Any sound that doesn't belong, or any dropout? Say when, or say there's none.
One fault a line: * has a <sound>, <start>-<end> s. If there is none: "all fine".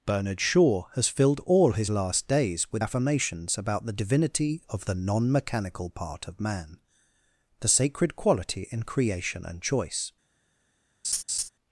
* has a laugh, 11.0-11.5 s